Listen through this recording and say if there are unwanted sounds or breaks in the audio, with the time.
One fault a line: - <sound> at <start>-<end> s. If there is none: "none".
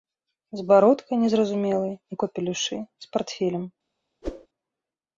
- whoosh at 4.2-4.5 s